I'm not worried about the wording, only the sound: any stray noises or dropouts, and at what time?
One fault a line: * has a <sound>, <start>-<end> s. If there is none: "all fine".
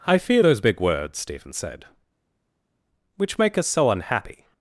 all fine